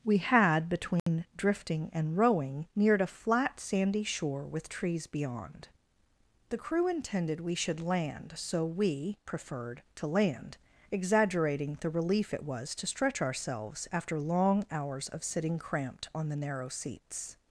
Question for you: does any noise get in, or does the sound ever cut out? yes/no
yes